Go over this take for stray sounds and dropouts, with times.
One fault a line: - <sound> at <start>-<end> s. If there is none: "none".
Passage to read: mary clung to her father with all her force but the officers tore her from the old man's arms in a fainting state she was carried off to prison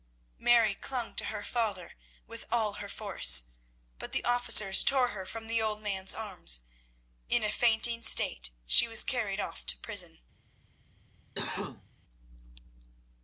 - cough at 11.3-11.9 s